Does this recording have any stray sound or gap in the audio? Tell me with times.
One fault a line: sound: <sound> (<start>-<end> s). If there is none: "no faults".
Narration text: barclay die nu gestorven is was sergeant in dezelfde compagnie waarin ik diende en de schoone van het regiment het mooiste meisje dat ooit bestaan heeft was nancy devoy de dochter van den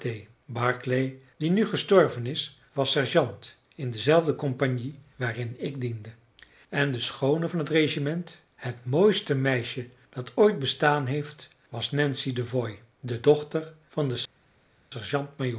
no faults